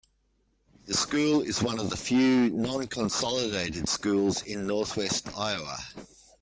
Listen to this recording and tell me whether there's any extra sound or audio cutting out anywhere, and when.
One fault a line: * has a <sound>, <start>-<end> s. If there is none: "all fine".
all fine